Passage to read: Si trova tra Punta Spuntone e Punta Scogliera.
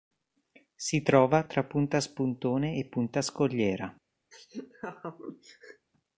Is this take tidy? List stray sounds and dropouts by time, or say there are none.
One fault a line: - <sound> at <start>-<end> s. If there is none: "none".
- laugh at 4.3-5.9 s